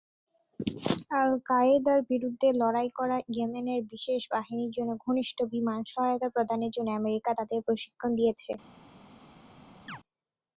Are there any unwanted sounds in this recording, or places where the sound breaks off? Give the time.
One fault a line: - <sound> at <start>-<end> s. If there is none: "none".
- chirp at 9.9-10.0 s